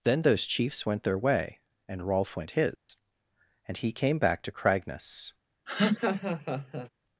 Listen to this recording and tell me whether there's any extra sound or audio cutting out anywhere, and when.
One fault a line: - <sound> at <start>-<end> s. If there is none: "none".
- dropout at 2.8-2.9 s
- laugh at 5.7-6.9 s